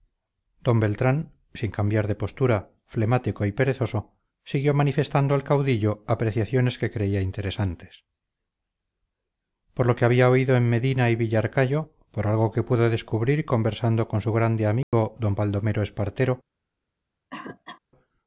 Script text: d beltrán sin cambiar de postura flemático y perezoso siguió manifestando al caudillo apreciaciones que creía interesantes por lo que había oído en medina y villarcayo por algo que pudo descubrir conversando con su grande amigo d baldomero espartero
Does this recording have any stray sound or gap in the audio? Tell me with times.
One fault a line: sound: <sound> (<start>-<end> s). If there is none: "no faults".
sound: dropout (14.8-14.9 s)
sound: cough (17.3-17.8 s)